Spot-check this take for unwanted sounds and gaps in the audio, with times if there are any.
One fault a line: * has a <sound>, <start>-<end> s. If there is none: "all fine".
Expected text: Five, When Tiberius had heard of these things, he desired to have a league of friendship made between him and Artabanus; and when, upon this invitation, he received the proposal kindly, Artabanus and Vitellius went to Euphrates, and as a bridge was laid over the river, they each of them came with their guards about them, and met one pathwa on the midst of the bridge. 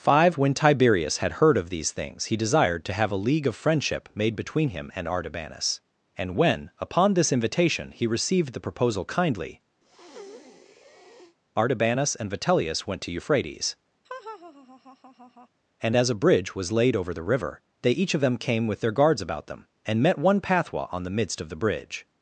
* has a breath, 9.8-11.4 s
* has a laugh, 14.0-15.5 s